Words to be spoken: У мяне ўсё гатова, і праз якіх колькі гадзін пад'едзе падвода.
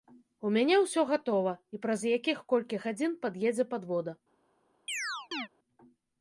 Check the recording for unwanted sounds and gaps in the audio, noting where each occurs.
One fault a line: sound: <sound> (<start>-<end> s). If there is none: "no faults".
sound: chirp (4.9-5.5 s)